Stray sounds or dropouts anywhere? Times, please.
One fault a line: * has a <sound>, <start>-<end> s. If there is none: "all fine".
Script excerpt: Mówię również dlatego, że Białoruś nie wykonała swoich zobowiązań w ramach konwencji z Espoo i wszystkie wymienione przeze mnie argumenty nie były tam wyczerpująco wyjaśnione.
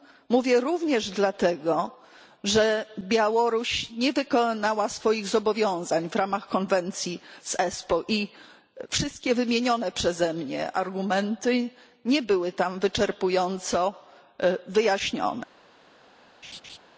* has a laugh, 16.4-16.8 s